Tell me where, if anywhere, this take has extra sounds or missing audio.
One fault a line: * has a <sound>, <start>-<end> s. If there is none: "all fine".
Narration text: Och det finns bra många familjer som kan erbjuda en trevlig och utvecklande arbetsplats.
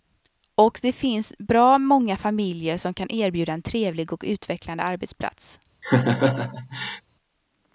* has a laugh, 5.8-7.0 s